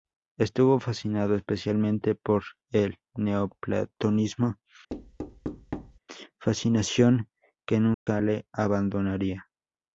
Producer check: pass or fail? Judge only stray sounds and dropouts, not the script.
fail